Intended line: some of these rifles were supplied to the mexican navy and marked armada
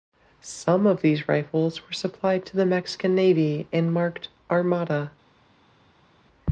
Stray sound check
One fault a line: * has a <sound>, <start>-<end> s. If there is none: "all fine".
all fine